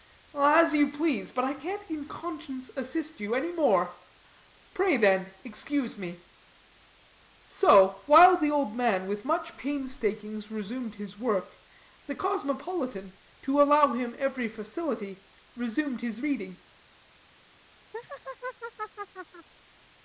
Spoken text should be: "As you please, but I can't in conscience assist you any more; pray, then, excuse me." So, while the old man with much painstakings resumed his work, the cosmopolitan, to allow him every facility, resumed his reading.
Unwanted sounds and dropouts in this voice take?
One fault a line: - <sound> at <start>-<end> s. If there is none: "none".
- laugh at 17.9-19.5 s